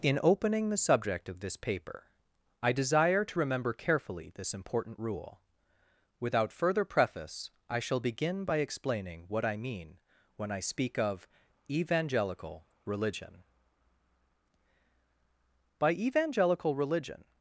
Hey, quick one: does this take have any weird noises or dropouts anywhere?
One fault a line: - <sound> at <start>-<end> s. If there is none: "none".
none